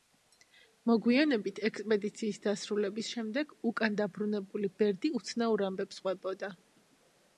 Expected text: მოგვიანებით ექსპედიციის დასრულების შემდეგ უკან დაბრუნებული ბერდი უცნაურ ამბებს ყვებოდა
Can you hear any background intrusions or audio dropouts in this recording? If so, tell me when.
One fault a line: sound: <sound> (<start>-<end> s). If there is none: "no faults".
no faults